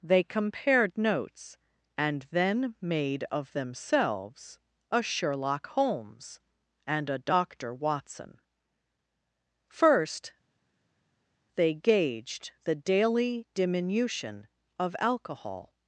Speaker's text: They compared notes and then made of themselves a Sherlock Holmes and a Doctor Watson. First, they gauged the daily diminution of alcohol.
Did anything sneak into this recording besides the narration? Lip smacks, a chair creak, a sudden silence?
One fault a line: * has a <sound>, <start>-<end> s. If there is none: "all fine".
all fine